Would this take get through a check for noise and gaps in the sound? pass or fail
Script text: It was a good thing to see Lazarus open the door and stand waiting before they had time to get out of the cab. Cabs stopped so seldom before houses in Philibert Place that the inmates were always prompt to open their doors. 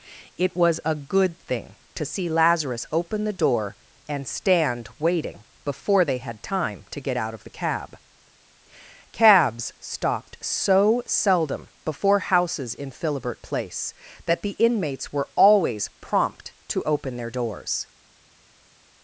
pass